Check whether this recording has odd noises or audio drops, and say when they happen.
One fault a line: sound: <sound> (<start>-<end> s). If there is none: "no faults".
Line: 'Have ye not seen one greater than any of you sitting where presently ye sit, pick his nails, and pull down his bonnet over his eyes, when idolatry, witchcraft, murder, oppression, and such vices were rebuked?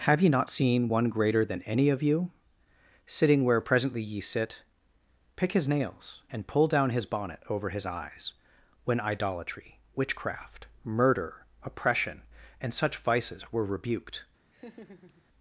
sound: laugh (14.5-15.2 s)